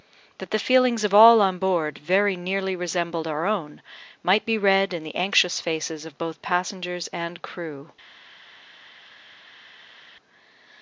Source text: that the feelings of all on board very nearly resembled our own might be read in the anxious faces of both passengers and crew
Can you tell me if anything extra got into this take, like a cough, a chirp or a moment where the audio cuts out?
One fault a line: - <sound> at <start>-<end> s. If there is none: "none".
none